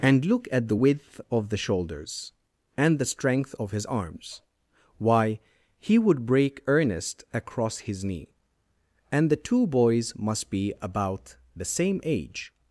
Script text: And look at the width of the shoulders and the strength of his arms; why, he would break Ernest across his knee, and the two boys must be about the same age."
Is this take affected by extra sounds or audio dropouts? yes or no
no